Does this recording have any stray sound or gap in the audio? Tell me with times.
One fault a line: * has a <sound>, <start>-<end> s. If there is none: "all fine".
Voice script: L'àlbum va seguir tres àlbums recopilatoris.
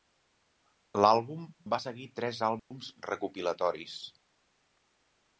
* has a dropout, 2.6-2.7 s